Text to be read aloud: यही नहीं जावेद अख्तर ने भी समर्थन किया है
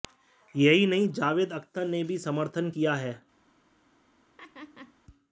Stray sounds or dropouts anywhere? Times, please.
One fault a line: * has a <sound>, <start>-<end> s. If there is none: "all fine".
* has a laugh, 4.4-4.9 s